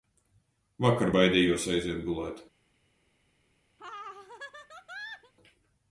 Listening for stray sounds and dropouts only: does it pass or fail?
fail